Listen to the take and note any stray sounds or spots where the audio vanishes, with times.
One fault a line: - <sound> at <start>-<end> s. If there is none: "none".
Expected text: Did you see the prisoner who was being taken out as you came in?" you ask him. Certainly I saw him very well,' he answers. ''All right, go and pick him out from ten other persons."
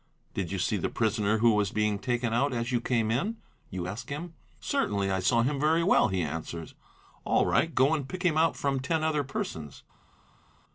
none